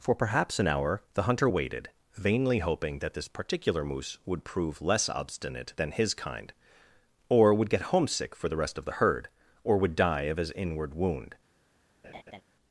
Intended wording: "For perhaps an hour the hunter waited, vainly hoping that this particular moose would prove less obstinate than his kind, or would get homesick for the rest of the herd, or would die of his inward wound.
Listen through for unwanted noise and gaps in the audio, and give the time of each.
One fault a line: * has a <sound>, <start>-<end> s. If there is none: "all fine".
* has a laugh, 12.0-12.4 s